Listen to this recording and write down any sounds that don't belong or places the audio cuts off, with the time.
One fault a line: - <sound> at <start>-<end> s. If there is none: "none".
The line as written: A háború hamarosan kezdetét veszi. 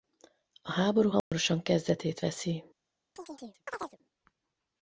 - dropout at 1.2-1.3 s
- chirp at 3.2-4.0 s